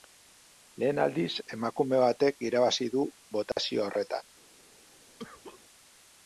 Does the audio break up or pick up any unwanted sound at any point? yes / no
yes